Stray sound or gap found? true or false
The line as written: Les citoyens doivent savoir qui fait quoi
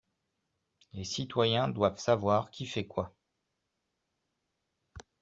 false